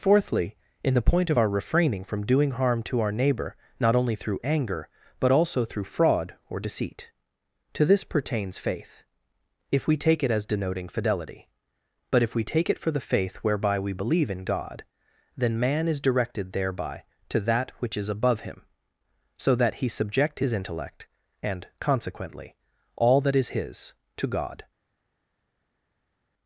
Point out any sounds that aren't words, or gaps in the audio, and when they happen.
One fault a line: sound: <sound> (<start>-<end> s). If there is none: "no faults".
no faults